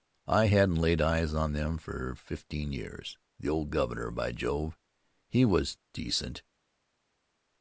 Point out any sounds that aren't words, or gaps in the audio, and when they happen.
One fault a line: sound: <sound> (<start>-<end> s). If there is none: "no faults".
no faults